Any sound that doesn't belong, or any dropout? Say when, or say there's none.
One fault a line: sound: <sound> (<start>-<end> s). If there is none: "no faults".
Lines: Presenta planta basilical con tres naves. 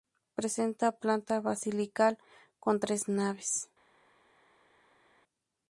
no faults